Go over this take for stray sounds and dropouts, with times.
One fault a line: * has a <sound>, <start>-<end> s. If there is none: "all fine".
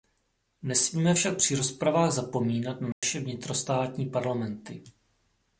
* has a dropout, 2.9-3.0 s